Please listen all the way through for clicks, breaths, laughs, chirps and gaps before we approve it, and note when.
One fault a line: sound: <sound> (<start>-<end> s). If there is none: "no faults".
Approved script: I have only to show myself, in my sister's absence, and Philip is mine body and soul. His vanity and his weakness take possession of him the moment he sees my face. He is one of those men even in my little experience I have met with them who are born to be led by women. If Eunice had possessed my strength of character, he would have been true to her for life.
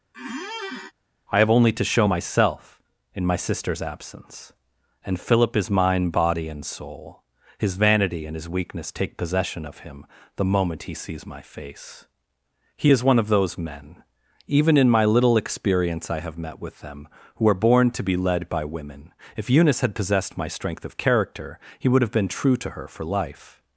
sound: squeak (0.1-0.9 s)